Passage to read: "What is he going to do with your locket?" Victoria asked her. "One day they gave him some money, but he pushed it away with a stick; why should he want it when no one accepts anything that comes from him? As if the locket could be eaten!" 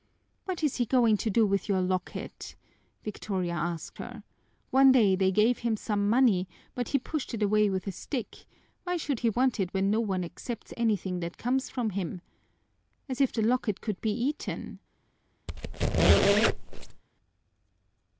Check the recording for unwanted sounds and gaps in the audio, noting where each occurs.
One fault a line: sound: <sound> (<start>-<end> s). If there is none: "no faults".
sound: squeak (15.5-17.0 s)